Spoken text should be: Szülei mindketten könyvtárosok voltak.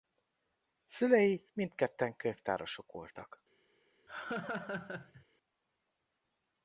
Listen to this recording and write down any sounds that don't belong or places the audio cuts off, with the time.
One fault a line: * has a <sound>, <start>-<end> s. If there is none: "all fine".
* has a laugh, 4.1-5.2 s